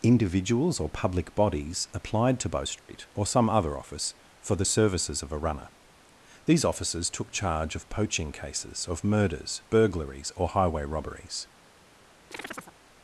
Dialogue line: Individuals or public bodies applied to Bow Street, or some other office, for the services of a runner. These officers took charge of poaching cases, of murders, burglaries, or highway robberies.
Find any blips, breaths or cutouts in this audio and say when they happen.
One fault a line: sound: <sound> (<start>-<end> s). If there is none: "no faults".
sound: dropout (2.8-2.9 s)
sound: chirp (12.3-12.8 s)